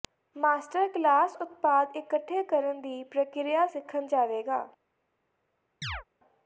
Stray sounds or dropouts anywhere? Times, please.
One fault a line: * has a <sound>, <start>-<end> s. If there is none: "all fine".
* has a chirp, 5.8-6.0 s